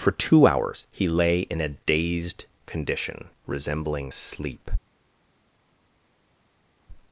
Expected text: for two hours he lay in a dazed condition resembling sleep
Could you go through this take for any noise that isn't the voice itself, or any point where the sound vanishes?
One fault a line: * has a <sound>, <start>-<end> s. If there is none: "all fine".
all fine